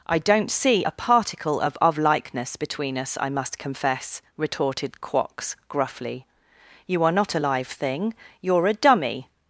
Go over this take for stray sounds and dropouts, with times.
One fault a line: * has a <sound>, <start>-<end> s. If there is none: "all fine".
all fine